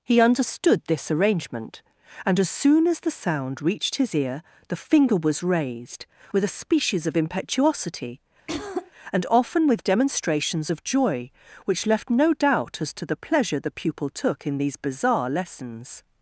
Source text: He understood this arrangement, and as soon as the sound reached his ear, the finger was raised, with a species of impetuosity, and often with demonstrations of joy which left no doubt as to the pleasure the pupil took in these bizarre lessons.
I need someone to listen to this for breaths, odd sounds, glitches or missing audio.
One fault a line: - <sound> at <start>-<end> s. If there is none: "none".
- throat clearing at 8.5-8.9 s